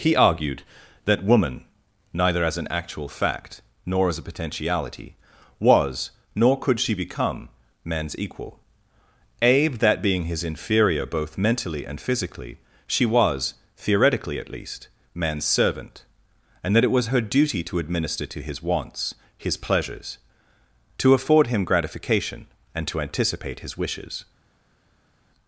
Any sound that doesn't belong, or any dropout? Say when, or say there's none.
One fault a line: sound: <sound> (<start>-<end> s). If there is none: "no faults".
no faults